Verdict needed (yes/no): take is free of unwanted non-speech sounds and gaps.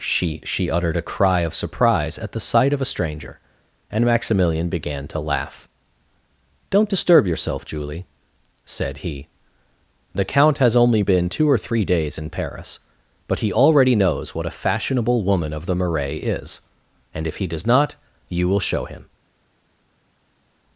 yes